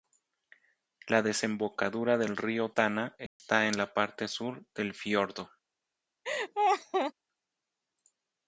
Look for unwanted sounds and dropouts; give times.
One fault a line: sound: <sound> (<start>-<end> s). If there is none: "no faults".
sound: dropout (3.3-3.4 s)
sound: laugh (6.2-7.1 s)